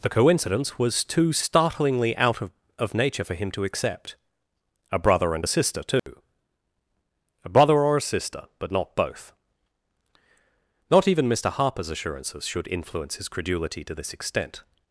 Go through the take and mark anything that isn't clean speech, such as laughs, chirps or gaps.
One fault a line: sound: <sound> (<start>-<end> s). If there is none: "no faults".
sound: dropout (6.0-6.1 s)